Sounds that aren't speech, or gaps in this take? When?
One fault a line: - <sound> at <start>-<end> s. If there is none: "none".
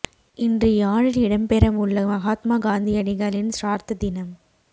none